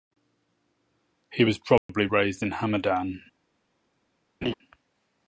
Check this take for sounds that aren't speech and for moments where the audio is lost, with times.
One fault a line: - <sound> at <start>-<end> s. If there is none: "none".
- dropout at 1.8-1.9 s
- laugh at 4.4-4.5 s